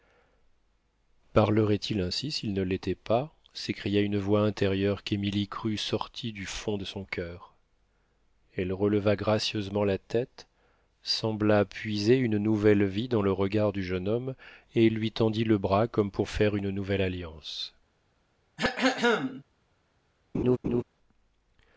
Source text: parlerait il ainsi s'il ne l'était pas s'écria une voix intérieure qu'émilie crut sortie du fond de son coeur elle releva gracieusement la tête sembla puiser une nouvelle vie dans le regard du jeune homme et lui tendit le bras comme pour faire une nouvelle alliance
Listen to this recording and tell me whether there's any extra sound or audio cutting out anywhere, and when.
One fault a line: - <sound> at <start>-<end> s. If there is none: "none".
- throat clearing at 18.6-19.4 s
- laugh at 20.3-20.8 s